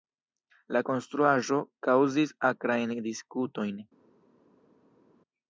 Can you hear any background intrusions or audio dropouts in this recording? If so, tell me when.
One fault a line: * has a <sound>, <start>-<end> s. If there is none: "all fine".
all fine